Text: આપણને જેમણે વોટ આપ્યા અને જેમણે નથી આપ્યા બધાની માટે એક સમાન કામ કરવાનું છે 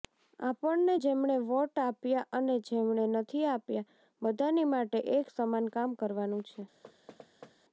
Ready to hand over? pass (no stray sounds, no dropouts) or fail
fail